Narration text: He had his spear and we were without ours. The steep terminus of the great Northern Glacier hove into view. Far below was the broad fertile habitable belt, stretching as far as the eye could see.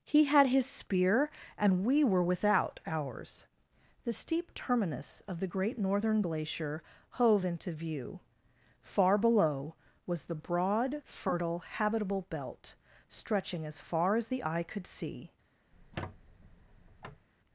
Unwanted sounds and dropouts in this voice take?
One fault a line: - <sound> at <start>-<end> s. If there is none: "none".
- squeak at 15.7-17.3 s